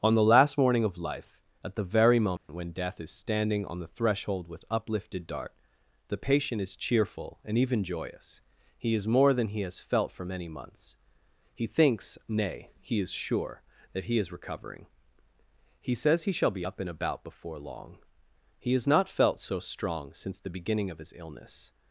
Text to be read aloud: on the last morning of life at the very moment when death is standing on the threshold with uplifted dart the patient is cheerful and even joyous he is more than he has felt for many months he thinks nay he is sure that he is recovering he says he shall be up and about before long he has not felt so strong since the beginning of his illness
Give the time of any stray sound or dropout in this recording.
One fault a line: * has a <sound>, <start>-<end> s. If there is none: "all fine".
* has a dropout, 2.4-2.5 s